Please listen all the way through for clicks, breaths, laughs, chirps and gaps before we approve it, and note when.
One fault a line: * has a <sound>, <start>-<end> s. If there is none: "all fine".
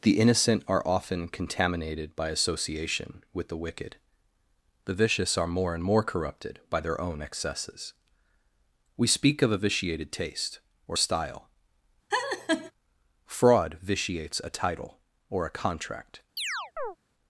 * has a laugh, 12.1-12.7 s
* has a chirp, 16.4-17.0 s